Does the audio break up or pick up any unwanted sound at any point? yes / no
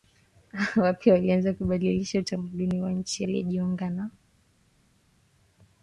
no